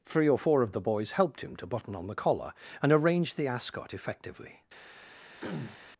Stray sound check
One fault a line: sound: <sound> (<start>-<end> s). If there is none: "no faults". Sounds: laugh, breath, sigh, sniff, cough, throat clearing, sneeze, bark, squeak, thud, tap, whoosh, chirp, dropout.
sound: throat clearing (5.4-5.8 s)